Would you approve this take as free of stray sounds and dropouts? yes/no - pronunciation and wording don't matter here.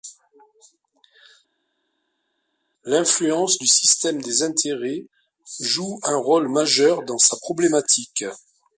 yes